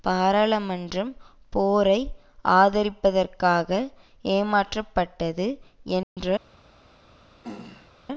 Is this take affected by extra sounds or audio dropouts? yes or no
yes